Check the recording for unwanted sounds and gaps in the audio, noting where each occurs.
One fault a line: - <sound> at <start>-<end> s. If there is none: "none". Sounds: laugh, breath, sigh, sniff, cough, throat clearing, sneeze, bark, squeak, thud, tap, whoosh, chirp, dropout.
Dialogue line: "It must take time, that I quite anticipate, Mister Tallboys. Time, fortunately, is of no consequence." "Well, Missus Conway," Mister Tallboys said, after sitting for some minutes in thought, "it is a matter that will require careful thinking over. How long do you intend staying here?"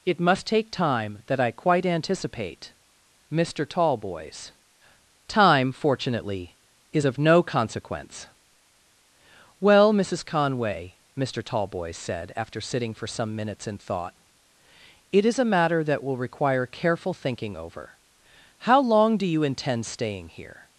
none